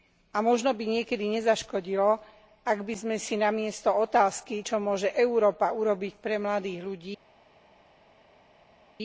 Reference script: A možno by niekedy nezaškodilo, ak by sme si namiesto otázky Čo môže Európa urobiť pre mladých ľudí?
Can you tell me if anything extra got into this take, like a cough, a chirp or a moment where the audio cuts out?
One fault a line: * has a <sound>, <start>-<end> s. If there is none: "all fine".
all fine